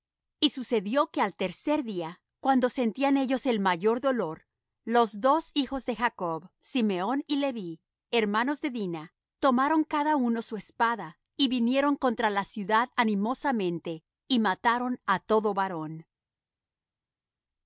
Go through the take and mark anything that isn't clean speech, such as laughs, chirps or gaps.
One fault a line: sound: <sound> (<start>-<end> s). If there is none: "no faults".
no faults